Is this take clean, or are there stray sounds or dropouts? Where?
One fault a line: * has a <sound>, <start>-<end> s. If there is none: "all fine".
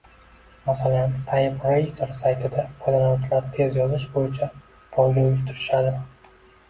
all fine